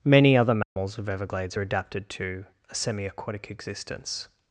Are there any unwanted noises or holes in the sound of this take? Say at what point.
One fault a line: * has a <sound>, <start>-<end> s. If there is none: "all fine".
* has a dropout, 0.6-0.8 s